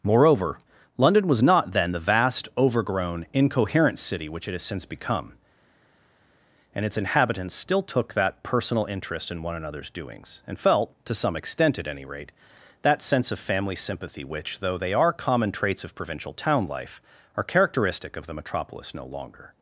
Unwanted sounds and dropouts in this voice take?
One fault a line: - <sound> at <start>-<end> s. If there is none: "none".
none